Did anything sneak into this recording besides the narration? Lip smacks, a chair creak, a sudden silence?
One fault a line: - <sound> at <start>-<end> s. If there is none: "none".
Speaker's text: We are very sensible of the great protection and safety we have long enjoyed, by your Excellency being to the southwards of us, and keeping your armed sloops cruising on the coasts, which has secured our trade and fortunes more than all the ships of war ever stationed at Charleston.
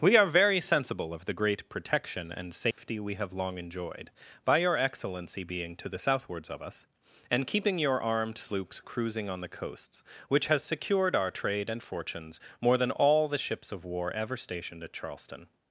- dropout at 2.7-2.8 s